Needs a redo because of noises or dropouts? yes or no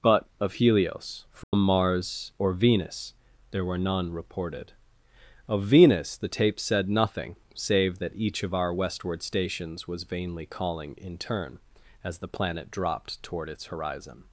yes